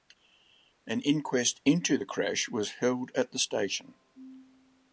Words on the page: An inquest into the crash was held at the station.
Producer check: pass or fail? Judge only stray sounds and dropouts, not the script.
pass